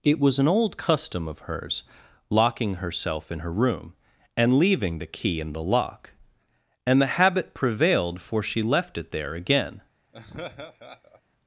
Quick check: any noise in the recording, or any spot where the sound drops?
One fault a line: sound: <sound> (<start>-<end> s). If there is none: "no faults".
sound: laugh (10.1-11.2 s)